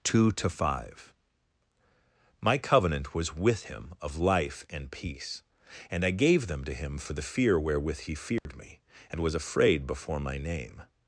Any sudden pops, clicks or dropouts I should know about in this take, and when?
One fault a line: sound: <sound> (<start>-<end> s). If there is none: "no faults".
sound: dropout (8.4-8.5 s)